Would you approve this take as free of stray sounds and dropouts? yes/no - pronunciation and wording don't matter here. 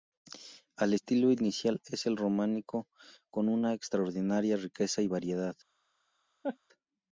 no